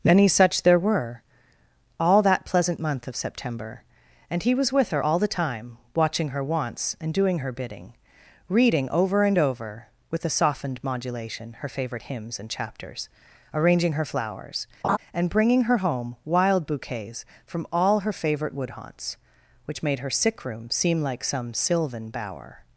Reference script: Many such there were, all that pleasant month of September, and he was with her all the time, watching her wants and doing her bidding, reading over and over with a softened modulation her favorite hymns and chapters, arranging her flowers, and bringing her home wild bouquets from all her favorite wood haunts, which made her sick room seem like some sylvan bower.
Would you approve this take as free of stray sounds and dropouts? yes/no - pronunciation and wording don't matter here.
no